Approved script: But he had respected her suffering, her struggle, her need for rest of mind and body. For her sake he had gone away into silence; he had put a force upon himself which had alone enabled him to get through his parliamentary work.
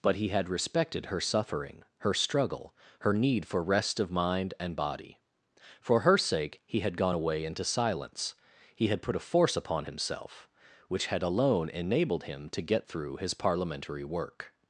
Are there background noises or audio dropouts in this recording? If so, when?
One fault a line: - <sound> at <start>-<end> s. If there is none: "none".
none